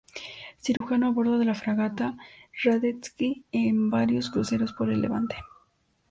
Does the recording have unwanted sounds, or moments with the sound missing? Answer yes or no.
yes